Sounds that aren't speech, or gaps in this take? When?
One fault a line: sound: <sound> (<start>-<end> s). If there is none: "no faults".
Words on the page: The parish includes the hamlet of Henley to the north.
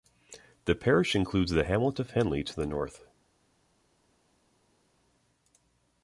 no faults